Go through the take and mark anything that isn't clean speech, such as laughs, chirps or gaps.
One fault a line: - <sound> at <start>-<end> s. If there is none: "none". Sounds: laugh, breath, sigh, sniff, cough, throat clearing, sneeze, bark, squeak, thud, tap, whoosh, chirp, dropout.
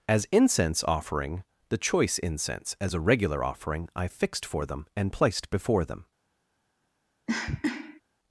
- cough at 7.3-8.0 s